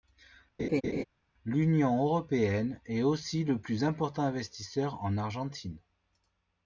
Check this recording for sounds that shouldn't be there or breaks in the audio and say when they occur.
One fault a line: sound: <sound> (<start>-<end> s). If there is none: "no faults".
sound: laugh (0.6-1.0 s)